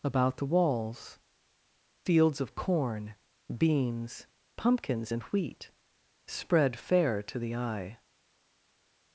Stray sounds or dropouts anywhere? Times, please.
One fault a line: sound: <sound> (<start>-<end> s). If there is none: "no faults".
no faults